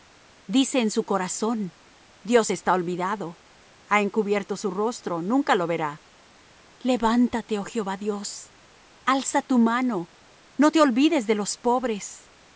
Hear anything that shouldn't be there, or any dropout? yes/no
no